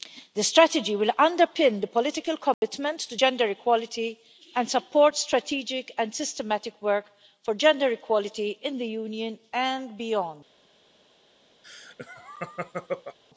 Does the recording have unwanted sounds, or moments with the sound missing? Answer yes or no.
yes